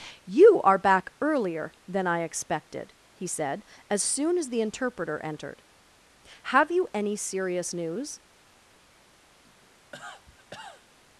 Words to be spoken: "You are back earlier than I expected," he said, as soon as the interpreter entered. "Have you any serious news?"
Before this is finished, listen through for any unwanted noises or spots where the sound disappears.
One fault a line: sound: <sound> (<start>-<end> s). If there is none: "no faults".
sound: cough (9.4-10.9 s)